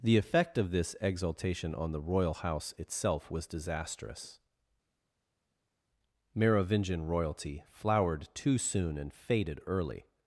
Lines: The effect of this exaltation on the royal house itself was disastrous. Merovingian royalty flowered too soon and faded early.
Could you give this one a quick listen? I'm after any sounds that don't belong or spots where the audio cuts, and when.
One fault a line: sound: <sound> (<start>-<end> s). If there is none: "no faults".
no faults